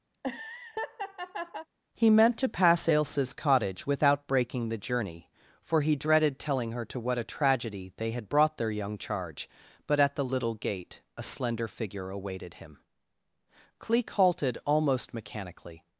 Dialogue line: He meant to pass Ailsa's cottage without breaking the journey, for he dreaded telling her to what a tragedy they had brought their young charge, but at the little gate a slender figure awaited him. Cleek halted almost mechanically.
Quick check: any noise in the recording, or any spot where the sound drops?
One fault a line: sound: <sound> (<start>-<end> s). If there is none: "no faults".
sound: laugh (0.1-1.7 s)